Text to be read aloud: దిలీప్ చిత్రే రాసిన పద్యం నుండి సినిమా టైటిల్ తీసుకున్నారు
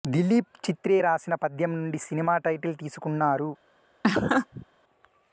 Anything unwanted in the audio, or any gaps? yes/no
yes